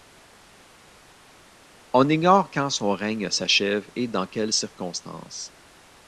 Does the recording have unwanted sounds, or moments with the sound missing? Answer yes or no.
no